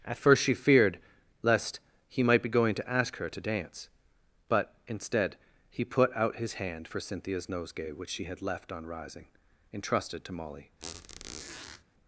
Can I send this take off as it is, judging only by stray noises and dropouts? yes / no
no